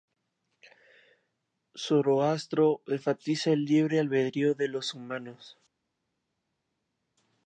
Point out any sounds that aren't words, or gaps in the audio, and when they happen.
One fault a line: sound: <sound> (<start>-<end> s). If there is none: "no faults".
no faults